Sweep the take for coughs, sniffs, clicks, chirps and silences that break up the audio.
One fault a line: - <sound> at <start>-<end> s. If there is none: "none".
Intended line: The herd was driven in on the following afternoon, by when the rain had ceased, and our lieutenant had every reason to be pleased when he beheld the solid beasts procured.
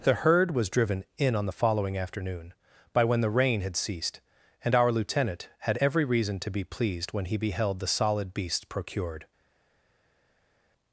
none